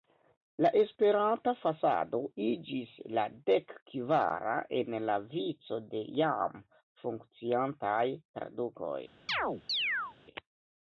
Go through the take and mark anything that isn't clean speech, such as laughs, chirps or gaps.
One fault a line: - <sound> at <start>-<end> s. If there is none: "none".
- chirp at 9.3-10.2 s